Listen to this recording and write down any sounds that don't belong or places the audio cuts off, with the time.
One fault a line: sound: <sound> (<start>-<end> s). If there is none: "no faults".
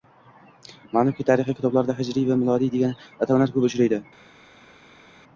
no faults